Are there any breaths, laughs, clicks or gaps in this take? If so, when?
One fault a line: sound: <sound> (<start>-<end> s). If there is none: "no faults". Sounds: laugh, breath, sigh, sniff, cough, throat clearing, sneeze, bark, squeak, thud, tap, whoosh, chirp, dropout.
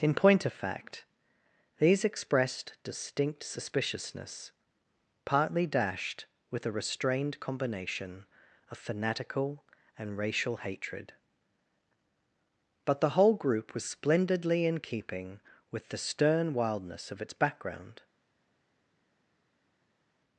no faults